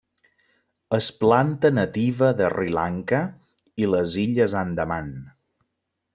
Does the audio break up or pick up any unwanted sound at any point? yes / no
no